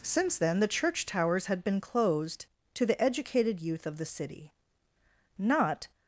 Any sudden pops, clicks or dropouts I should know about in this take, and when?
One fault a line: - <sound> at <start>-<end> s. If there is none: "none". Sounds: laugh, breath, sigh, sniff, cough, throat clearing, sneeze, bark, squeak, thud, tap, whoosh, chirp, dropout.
none